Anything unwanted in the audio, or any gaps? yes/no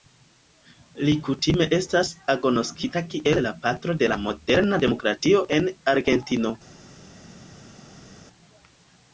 no